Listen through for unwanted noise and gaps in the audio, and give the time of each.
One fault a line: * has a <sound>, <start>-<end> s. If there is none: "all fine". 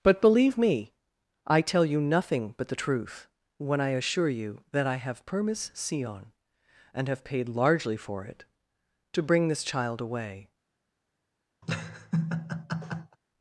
* has a laugh, 11.6-13.2 s